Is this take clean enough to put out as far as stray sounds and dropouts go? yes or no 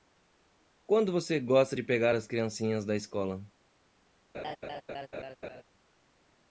no